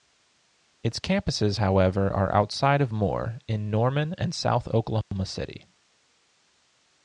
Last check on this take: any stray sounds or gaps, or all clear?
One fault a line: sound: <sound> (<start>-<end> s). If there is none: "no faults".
sound: dropout (5.0-5.1 s)